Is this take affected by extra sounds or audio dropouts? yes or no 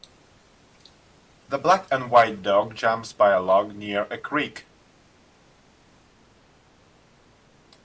no